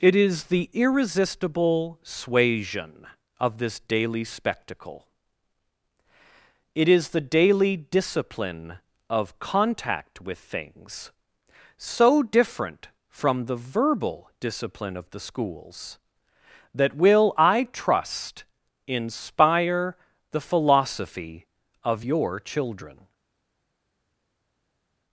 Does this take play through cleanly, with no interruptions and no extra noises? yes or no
yes